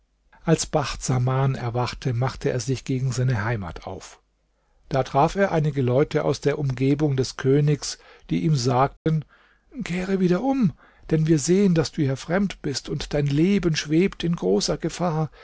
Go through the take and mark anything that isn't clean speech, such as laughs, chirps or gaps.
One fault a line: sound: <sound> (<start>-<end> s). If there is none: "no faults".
sound: dropout (9.0-9.1 s)